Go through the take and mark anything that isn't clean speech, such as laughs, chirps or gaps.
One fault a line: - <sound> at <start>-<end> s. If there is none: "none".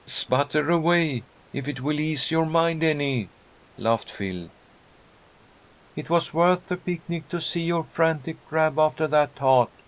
none